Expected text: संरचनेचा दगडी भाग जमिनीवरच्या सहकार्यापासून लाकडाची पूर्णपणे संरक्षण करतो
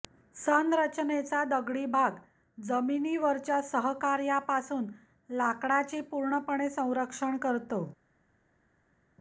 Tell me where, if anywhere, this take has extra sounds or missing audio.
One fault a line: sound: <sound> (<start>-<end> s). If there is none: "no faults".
no faults